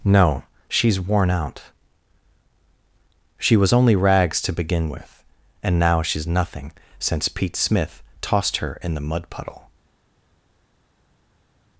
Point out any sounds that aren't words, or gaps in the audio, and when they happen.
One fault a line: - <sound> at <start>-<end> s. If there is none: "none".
none